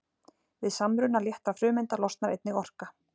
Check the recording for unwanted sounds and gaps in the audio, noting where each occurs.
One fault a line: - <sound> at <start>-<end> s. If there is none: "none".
none